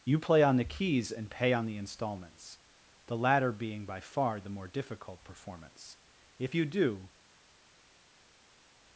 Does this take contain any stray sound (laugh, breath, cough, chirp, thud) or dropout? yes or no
no